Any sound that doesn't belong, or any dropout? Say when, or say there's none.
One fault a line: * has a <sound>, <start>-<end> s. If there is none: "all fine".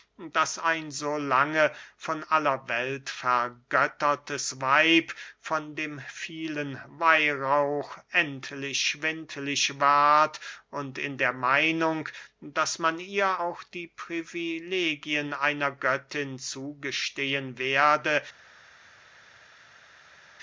all fine